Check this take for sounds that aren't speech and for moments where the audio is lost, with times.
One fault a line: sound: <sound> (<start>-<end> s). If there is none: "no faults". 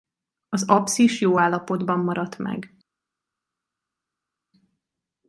no faults